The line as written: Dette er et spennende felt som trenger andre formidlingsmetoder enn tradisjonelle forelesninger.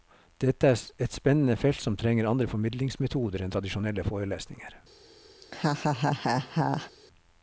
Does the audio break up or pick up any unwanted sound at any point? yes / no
yes